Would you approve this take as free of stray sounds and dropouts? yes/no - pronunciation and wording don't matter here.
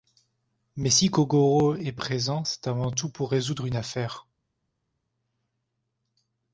yes